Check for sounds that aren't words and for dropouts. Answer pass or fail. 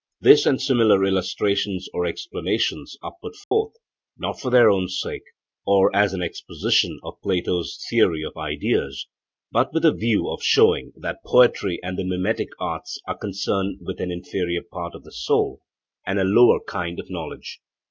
fail